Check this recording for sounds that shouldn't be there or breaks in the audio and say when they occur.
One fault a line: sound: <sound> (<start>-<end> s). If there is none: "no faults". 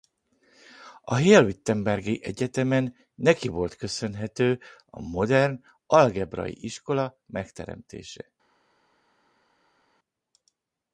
no faults